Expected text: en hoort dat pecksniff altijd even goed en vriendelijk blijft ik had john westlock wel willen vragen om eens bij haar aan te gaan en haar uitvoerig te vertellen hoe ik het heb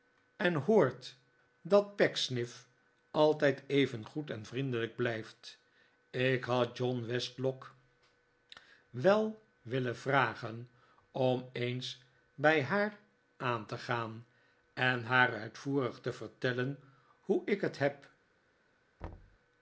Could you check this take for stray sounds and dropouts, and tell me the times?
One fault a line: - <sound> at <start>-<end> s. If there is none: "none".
- thud at 19.0-19.4 s